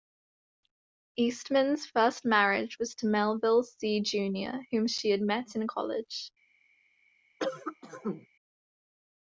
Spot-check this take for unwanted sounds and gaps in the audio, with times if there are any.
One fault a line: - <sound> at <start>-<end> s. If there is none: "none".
- cough at 7.4-8.3 s